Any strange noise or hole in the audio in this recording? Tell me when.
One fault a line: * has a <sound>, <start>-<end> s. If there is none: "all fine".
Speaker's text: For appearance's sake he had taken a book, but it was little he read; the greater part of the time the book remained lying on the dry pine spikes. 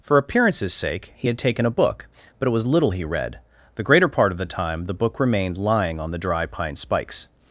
all fine